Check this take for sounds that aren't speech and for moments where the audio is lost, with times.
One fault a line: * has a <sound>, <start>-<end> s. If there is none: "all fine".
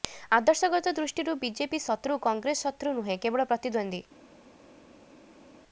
all fine